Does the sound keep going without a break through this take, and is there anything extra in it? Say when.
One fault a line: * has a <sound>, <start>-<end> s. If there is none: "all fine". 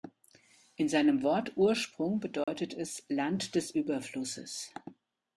* has a dropout, 2.4-2.5 s